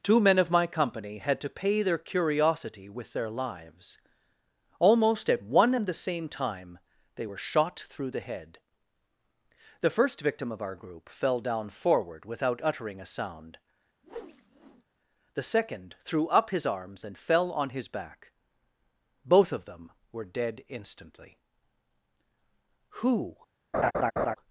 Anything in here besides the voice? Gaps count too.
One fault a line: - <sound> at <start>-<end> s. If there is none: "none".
- whoosh at 14.0-14.8 s
- laugh at 23.7-24.4 s